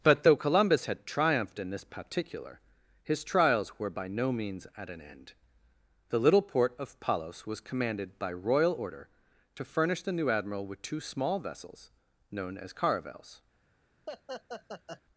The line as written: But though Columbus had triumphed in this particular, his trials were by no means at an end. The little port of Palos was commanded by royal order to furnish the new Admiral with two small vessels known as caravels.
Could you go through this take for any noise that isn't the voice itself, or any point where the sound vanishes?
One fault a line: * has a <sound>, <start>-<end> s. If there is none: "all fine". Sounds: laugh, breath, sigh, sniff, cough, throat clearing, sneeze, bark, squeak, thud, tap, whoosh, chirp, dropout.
* has a laugh, 14.1-15.0 s